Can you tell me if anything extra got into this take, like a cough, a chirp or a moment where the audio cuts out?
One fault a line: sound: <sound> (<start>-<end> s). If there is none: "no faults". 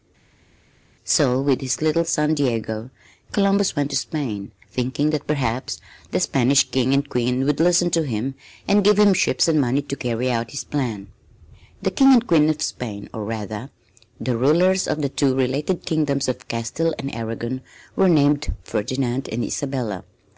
no faults